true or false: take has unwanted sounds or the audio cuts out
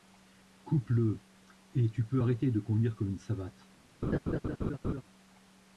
true